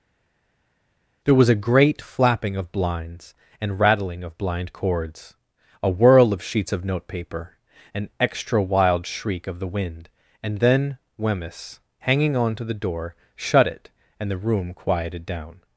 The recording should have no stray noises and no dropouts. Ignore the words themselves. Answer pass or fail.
pass